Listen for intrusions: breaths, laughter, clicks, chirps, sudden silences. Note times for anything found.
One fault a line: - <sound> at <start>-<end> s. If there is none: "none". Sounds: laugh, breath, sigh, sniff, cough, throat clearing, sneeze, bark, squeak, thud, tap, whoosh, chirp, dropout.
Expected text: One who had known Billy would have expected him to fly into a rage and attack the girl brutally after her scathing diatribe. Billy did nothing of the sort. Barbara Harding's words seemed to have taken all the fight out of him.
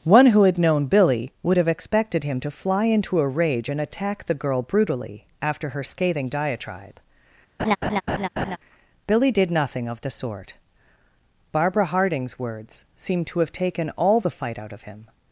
- laugh at 7.6-8.6 s